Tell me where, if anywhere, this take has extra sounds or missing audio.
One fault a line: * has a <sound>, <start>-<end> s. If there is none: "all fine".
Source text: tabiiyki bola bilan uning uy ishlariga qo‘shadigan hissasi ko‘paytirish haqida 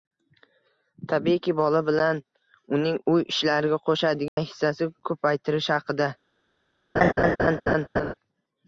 * has a dropout, 4.3-4.4 s
* has a laugh, 7.0-8.1 s